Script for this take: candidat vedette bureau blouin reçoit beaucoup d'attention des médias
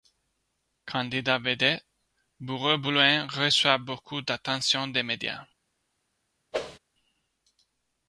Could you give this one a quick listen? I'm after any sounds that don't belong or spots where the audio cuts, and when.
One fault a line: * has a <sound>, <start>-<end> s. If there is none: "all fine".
* has a whoosh, 6.5-6.8 s